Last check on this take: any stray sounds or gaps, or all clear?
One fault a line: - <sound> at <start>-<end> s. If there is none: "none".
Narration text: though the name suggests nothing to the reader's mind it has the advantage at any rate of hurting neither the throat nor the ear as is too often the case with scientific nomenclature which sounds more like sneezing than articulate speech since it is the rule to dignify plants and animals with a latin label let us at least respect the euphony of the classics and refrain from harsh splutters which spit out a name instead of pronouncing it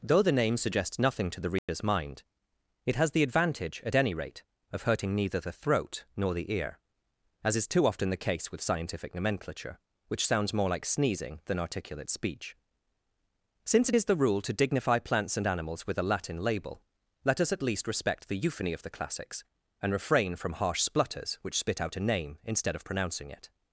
- dropout at 1.6-1.7 s